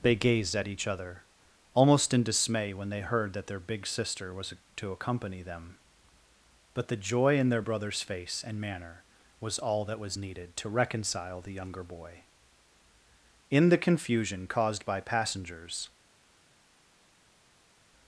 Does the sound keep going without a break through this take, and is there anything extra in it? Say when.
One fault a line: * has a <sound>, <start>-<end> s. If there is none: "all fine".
all fine